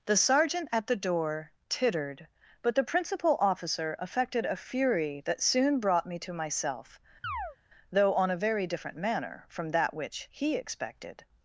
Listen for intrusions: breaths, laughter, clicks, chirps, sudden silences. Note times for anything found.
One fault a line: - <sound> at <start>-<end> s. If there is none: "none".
- chirp at 7.2-7.6 s